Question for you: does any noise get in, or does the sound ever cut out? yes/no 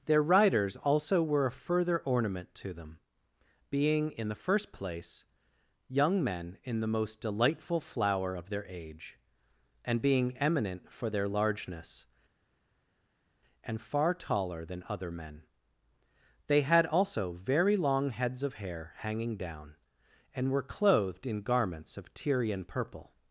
no